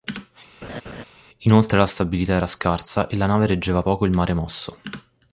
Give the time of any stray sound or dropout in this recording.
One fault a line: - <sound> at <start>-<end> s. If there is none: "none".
- laugh at 0.6-1.0 s